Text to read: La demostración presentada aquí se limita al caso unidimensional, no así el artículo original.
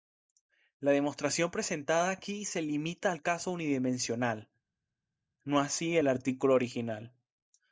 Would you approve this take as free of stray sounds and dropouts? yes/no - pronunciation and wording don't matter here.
yes